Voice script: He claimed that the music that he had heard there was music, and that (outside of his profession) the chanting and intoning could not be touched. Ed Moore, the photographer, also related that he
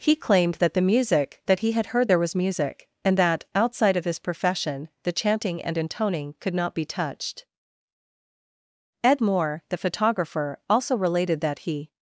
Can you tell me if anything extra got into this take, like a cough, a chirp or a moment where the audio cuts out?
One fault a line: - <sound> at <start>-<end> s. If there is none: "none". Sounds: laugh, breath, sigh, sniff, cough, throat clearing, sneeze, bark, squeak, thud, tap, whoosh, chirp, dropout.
none